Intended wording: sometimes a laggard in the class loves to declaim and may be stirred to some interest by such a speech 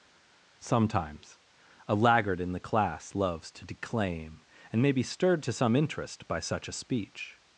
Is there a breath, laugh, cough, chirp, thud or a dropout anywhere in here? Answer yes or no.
no